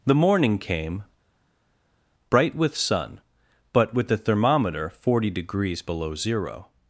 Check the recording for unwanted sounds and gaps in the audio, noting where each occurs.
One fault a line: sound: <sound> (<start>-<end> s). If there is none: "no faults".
no faults